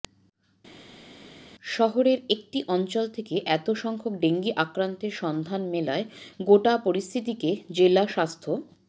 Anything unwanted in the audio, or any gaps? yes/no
no